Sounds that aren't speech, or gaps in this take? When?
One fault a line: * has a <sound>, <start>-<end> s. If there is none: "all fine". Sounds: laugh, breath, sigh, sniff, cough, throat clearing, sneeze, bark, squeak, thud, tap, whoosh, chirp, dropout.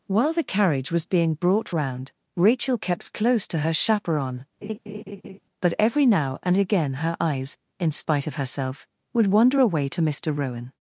* has a laugh, 4.6-5.4 s